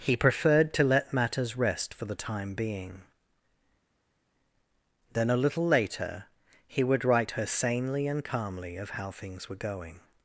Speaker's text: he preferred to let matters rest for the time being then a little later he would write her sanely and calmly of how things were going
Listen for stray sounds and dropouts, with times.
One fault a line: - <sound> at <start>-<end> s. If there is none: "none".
none